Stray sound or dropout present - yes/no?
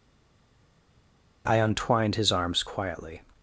no